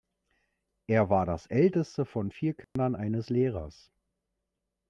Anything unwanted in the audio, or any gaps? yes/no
yes